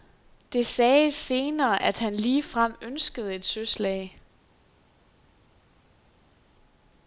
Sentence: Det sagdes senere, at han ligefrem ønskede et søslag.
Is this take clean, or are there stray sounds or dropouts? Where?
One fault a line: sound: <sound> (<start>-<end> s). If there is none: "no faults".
no faults